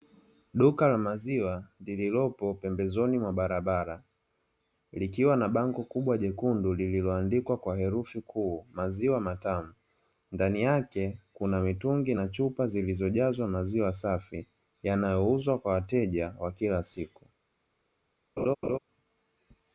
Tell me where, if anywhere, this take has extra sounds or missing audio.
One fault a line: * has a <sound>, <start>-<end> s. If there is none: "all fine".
* has a laugh, 18.4-18.8 s